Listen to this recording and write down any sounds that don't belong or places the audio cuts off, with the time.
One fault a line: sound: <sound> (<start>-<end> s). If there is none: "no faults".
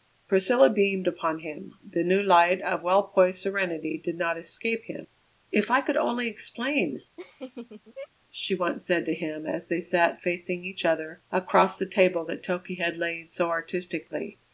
sound: laugh (7.2-8.1 s)